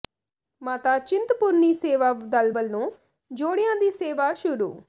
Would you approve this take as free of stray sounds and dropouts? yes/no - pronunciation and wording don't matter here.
yes